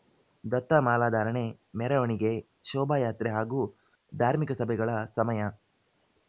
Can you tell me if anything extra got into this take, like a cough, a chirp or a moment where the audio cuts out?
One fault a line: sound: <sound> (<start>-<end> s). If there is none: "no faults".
no faults